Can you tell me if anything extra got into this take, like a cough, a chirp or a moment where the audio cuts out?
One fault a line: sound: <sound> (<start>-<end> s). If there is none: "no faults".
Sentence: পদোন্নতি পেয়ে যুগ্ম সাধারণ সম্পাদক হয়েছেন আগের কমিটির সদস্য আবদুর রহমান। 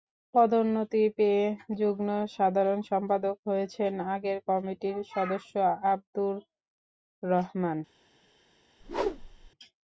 sound: whoosh (8.8-9.5 s)